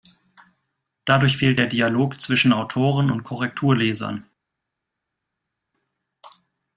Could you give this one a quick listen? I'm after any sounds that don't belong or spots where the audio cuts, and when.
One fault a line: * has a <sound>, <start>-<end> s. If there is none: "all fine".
all fine